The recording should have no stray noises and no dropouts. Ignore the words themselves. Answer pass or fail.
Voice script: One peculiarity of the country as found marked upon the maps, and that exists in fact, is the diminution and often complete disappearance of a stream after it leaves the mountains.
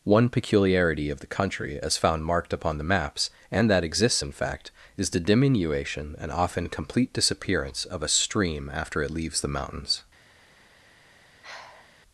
fail